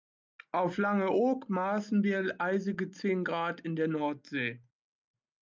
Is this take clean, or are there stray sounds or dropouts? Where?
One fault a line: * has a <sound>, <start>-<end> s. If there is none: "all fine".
all fine